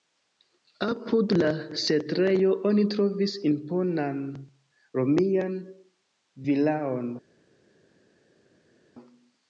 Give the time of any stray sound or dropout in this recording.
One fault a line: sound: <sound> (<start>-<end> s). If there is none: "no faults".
no faults